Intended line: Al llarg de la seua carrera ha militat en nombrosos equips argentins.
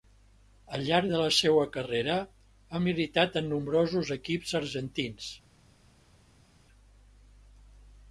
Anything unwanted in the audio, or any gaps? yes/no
no